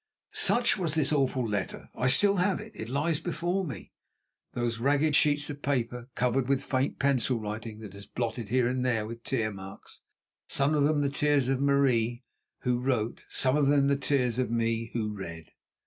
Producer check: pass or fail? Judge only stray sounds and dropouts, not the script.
pass